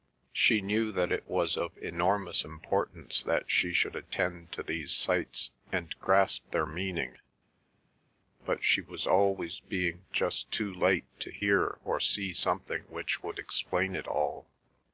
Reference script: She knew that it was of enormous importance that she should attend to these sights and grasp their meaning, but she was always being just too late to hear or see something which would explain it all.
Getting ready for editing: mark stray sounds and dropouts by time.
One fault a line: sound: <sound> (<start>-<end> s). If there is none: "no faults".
no faults